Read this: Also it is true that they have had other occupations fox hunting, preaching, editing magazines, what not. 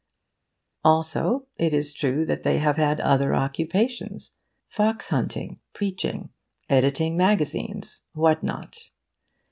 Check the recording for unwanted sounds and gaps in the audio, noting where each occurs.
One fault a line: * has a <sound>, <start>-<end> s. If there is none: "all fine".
all fine